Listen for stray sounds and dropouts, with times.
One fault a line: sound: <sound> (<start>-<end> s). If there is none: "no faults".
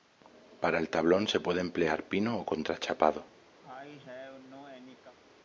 sound: cough (3.6-5.2 s)